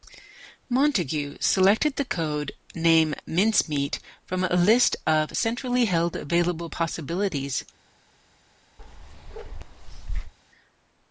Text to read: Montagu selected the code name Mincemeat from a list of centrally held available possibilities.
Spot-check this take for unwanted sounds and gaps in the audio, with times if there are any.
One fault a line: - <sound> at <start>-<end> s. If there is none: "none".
- bark at 8.8-10.3 s